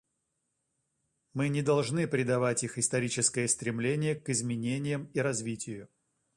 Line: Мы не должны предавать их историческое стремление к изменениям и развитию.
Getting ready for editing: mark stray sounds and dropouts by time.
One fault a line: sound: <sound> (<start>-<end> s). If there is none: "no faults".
no faults